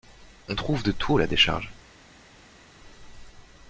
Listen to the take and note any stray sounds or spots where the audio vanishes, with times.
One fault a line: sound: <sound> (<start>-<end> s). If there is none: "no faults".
no faults